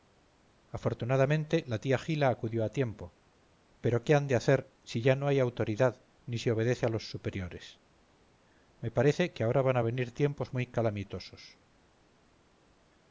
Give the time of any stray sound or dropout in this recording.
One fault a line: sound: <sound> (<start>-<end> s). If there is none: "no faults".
no faults